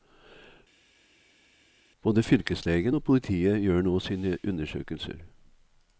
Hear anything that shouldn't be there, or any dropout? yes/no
no